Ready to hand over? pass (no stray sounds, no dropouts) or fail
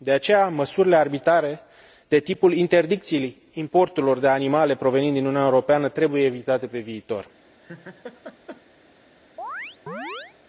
fail